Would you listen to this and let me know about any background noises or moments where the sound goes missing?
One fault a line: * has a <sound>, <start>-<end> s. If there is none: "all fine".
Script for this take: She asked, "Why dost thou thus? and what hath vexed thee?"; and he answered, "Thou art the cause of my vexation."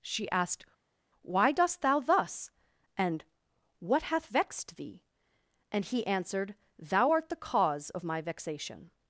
all fine